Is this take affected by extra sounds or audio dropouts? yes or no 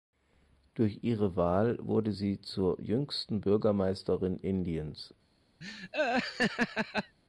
yes